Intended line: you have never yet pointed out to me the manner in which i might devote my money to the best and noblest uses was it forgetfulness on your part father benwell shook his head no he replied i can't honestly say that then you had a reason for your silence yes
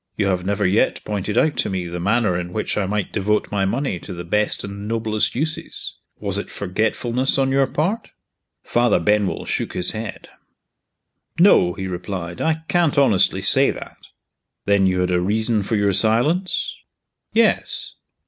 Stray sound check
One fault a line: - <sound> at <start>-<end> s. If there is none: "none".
none